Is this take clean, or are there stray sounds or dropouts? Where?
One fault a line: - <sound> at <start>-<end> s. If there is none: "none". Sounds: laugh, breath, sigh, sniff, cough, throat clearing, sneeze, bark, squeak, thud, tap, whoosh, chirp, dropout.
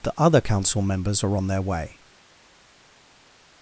none